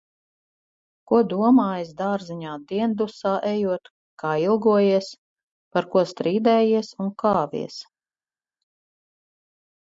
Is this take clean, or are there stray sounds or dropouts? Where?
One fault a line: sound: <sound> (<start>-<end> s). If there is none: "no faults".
no faults